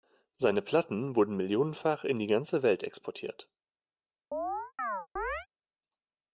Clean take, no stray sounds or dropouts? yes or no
no